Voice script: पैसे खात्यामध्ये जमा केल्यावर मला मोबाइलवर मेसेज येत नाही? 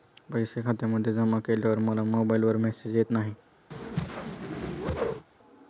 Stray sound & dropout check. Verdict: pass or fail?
fail